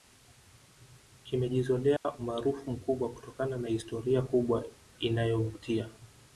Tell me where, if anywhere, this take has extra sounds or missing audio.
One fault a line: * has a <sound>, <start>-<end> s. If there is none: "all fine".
* has a dropout, 2.0-2.0 s